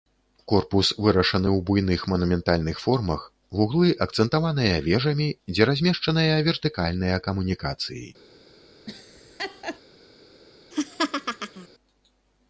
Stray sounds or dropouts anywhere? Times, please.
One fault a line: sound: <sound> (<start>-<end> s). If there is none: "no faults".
sound: laugh (8.9-9.8 s)
sound: laugh (10.7-11.7 s)